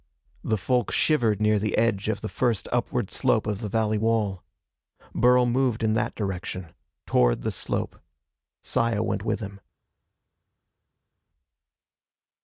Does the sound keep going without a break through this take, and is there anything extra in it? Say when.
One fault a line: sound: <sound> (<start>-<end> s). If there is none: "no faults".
no faults